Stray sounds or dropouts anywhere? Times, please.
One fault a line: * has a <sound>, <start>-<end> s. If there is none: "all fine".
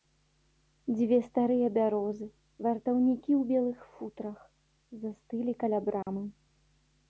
* has a dropout, 6.0-6.1 s